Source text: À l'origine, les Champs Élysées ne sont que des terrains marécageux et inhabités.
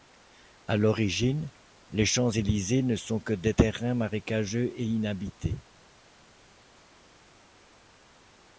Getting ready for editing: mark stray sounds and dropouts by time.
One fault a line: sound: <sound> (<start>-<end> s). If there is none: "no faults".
no faults